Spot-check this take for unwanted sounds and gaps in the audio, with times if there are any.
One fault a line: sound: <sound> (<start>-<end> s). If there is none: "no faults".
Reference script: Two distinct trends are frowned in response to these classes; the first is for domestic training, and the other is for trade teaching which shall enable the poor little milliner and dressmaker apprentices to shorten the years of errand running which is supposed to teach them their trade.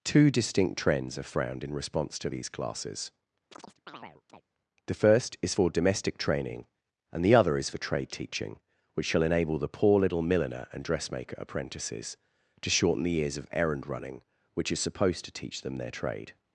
sound: chirp (3.5-4.4 s)